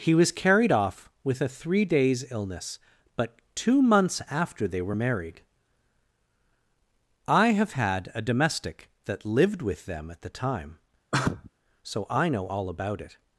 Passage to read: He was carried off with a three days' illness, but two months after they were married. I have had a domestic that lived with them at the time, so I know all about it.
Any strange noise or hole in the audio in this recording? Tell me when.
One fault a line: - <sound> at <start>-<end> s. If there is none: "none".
- sneeze at 11.1-11.5 s